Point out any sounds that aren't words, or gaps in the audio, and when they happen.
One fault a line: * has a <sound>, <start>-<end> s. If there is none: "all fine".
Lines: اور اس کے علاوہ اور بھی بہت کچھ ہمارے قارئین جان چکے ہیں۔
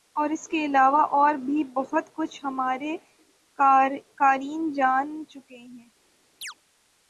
* has a chirp, 6.4-6.5 s